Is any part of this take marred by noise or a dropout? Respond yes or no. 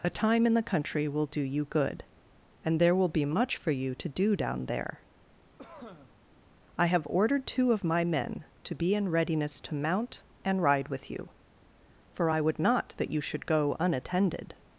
yes